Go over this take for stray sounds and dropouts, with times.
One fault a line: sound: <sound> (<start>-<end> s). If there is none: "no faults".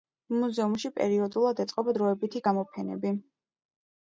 no faults